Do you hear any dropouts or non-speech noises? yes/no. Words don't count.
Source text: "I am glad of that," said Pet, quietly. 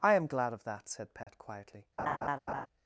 yes